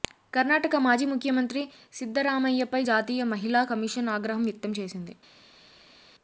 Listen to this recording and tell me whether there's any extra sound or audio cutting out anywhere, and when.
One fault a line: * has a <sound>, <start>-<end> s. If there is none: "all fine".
all fine